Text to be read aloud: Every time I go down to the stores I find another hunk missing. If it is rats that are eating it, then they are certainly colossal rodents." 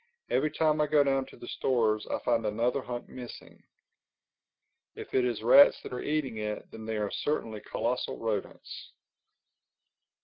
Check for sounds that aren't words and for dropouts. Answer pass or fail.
pass